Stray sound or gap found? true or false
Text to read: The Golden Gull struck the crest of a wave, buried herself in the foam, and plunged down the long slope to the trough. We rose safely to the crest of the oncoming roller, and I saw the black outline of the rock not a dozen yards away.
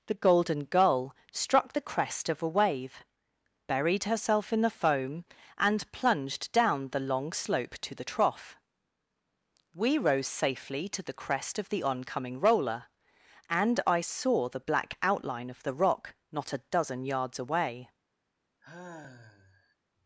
true